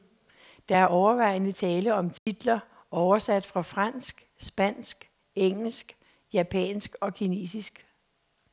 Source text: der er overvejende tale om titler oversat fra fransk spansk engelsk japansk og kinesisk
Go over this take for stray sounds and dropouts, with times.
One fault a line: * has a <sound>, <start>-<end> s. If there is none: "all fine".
* has a dropout, 2.2-2.3 s